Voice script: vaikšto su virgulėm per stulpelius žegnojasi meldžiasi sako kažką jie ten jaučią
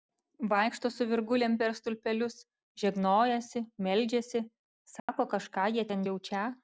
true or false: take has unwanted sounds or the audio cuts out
true